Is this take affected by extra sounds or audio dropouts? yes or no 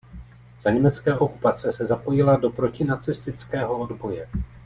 no